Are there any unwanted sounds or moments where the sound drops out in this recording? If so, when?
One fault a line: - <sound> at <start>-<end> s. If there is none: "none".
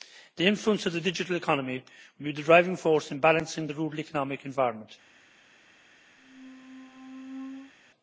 - squeak at 6.2-7.7 s